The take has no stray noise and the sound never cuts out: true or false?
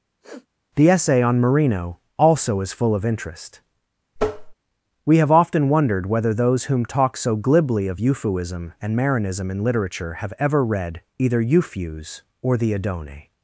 false